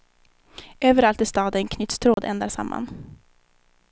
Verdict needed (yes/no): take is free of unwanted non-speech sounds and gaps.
no